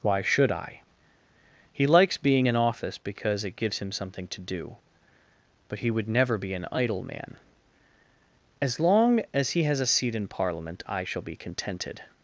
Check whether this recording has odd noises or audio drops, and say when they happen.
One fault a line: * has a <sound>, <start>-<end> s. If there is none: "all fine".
all fine